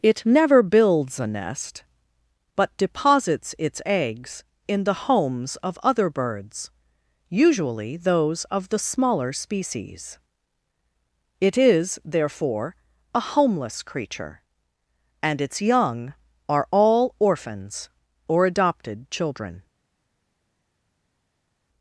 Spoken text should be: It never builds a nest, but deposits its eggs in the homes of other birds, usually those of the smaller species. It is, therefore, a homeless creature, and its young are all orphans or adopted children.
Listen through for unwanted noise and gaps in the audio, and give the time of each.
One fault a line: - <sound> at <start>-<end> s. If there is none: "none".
none